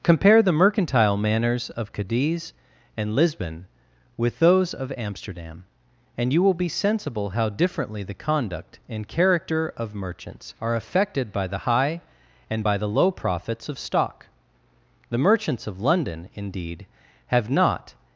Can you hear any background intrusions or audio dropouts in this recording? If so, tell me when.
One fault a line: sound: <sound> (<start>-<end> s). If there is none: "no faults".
no faults